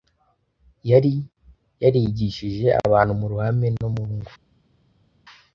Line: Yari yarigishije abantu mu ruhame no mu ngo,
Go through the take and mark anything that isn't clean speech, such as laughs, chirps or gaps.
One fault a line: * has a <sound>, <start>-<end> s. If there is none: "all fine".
all fine